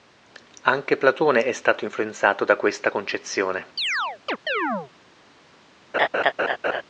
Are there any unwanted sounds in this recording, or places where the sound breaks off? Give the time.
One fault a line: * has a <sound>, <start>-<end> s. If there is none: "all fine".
* has a chirp, 3.8-4.9 s
* has a laugh, 5.9-6.8 s